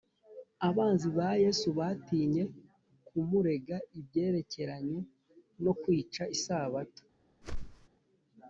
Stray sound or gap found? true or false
true